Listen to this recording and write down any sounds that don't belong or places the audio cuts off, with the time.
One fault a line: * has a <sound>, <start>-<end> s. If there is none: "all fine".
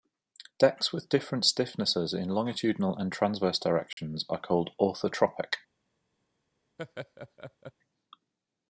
* has a dropout, 3.9-4.0 s
* has a laugh, 6.8-7.7 s